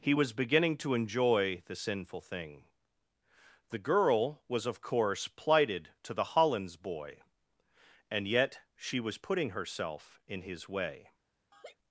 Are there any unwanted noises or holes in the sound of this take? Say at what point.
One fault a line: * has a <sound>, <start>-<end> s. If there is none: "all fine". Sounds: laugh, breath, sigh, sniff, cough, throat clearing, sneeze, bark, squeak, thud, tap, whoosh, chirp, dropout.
* has a laugh, 11.5-11.8 s